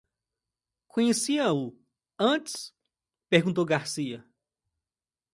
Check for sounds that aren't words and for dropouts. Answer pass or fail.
pass